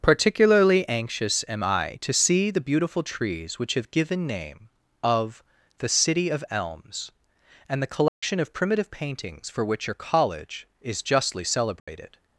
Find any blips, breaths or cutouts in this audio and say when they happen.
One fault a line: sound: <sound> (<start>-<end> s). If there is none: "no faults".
sound: dropout (8.1-8.2 s)
sound: dropout (11.8-11.9 s)